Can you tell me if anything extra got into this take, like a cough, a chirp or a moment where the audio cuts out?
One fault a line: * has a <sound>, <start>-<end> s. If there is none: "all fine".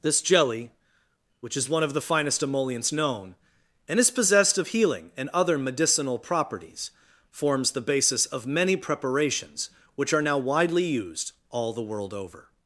all fine